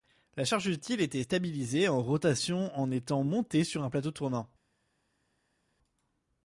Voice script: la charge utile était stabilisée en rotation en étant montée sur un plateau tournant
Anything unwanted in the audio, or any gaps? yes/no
no